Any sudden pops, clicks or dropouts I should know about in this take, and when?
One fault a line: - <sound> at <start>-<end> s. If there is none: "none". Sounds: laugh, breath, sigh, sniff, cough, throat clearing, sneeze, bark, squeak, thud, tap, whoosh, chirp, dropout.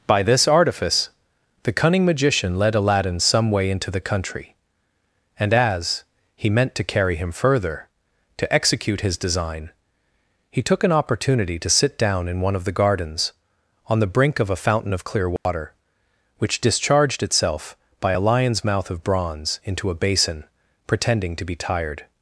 - dropout at 15.4-15.5 s